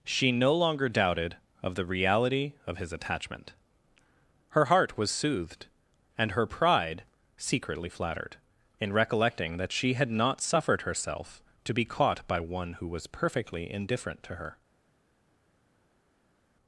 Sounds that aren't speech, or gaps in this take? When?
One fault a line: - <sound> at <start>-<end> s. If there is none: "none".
none